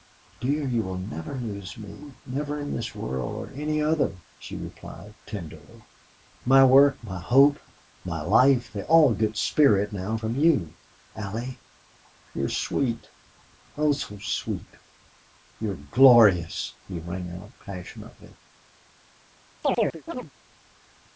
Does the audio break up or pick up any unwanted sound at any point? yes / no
yes